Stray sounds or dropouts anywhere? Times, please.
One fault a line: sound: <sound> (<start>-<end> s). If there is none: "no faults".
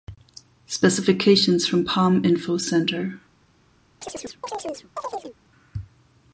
sound: chirp (4.0-5.4 s)